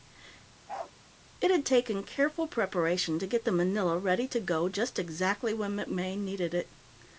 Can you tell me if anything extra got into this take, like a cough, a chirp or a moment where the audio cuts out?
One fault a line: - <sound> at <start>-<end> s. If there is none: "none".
- bark at 0.7-0.9 s